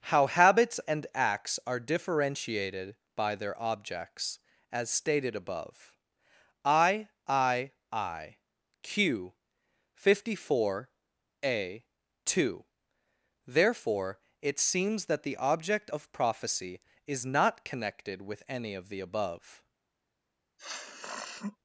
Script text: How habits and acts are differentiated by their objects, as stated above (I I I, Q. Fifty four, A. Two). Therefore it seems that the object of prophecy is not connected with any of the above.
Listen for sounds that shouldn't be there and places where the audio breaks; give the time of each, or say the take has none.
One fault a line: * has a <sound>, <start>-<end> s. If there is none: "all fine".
* has a sniff, 20.6-21.6 s